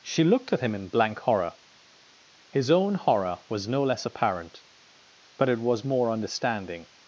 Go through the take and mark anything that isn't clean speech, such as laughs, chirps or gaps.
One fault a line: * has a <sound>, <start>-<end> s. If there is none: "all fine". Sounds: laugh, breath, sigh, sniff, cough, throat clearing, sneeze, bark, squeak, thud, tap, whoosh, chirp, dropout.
all fine